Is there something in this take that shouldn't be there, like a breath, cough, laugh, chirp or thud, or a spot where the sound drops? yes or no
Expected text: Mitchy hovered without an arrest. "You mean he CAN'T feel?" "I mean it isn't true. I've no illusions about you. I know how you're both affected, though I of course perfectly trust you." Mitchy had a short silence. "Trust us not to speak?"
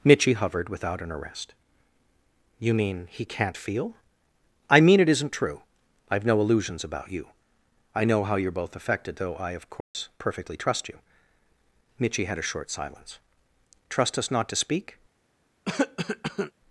yes